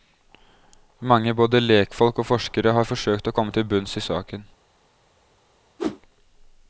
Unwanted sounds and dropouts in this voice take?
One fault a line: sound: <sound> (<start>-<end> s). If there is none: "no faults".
sound: whoosh (5.8-6.0 s)